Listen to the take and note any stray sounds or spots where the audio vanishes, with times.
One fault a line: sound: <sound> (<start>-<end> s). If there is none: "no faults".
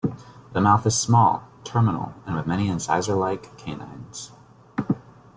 no faults